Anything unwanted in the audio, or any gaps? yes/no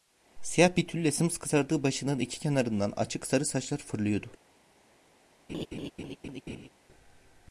yes